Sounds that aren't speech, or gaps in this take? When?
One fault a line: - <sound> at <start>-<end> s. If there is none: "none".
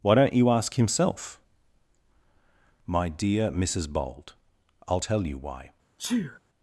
- sneeze at 6.0-6.4 s